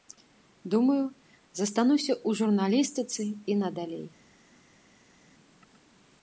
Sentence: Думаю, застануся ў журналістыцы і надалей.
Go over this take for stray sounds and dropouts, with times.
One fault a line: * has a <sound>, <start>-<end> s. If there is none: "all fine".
all fine